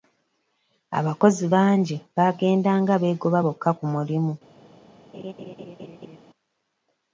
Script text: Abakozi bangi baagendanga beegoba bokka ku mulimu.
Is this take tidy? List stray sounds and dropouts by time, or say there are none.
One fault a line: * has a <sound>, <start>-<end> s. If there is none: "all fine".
* has a laugh, 5.1-6.2 s